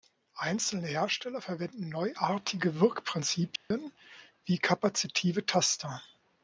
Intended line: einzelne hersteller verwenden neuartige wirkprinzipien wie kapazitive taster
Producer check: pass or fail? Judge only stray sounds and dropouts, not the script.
fail